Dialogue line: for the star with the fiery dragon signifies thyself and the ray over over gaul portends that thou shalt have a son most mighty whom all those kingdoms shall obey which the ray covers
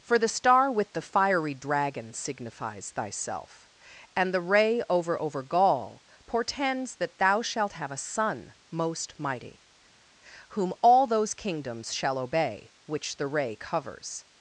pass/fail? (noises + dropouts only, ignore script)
pass